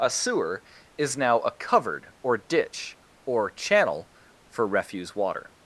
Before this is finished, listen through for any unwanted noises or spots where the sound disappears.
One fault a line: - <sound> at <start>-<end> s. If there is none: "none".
none